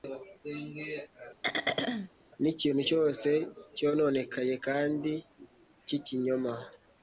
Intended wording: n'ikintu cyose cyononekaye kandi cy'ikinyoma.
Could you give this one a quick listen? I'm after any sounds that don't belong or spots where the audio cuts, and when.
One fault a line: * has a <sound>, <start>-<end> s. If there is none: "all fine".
* has a throat clearing, 1.4-2.1 s